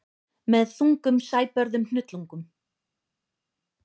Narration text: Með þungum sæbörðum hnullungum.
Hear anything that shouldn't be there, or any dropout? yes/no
no